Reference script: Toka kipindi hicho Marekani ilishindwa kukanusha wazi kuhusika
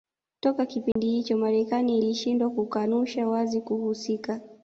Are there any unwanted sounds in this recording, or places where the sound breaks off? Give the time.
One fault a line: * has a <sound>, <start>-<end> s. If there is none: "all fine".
* has a dropout, 0.9-1.0 s